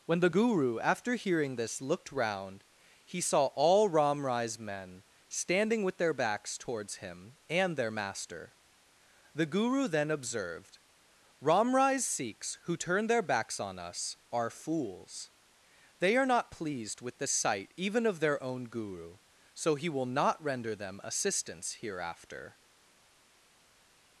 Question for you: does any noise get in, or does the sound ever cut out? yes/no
no